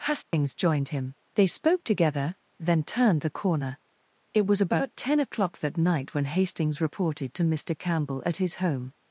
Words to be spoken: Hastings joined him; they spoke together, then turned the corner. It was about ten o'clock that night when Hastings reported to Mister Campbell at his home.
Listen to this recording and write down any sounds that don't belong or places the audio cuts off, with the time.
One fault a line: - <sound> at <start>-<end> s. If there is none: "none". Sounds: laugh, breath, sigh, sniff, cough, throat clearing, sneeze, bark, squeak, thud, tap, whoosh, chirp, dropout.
- dropout at 0.2-0.3 s